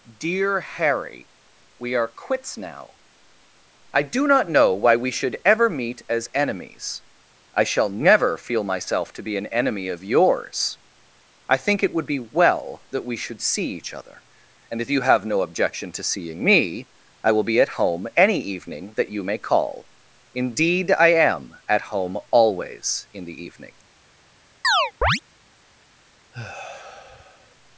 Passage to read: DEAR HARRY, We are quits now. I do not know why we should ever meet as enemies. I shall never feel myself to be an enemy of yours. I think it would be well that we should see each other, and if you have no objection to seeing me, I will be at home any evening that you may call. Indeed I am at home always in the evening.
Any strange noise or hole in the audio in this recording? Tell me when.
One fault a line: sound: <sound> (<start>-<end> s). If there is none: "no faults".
sound: chirp (24.6-25.2 s)
sound: sigh (26.3-27.6 s)